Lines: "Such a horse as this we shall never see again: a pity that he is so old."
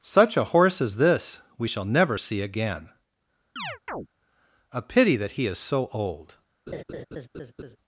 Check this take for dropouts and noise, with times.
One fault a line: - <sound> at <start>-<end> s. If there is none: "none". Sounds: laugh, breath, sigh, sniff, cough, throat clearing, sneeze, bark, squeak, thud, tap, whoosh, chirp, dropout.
- chirp at 3.6-4.1 s
- laugh at 6.7-7.8 s